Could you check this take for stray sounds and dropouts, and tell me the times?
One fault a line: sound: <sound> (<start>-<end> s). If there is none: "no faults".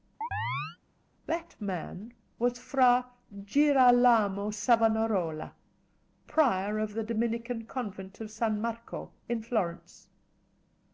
sound: chirp (0.2-0.8 s)